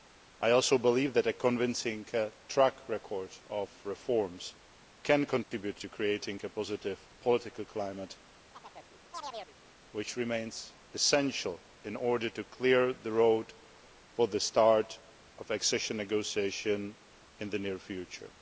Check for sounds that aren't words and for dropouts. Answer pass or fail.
fail